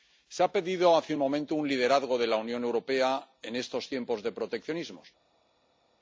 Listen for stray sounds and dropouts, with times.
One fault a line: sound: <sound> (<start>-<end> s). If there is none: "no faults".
no faults